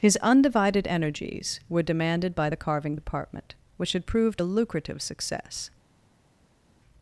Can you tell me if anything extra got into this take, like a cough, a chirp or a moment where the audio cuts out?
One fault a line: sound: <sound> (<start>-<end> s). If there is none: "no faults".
no faults